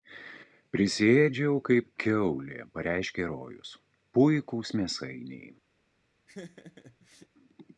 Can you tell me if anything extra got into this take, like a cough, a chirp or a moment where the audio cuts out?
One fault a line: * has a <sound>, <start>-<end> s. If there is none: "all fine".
* has a laugh, 6.3-7.3 s